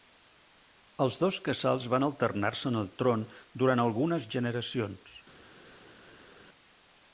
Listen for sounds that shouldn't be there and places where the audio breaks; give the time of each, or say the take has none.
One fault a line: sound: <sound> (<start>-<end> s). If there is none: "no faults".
no faults